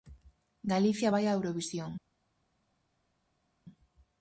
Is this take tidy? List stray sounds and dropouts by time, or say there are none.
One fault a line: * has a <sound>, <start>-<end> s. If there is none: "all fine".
all fine